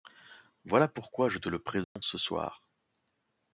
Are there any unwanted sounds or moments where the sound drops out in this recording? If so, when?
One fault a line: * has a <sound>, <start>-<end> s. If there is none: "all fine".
* has a dropout, 1.8-2.0 s